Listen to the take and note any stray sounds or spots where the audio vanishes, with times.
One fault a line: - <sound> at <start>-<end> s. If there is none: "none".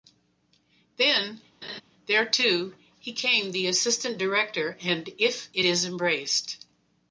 - laugh at 1.6-1.8 s